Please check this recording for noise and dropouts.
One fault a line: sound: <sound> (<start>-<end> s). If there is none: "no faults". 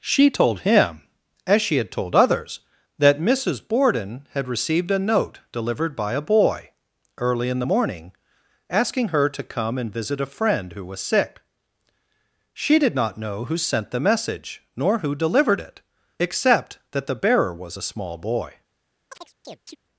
sound: chirp (19.1-19.8 s)